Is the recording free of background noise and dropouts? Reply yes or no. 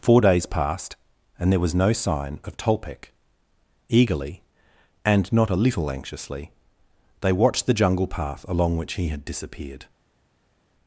yes